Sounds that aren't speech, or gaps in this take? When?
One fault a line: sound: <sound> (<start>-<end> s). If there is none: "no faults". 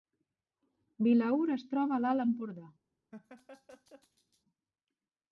sound: laugh (3.1-4.4 s)